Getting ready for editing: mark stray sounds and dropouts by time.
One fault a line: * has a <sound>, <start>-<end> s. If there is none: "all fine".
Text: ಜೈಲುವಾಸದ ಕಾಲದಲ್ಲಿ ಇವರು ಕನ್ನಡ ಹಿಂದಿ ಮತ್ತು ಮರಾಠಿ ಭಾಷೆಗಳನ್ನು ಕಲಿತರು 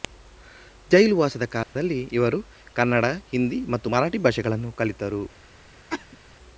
* has a dropout, 1.6-1.8 s
* has a cough, 5.9-6.2 s